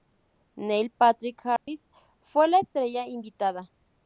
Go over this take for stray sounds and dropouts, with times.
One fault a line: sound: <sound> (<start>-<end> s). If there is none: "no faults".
sound: dropout (1.6-1.7 s)